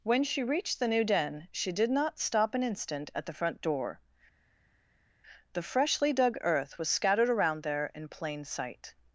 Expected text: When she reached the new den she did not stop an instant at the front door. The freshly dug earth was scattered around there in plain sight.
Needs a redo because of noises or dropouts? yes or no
no